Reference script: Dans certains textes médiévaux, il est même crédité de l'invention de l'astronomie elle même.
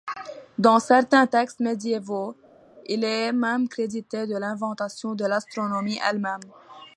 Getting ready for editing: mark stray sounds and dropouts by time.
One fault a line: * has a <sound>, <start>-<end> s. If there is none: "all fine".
all fine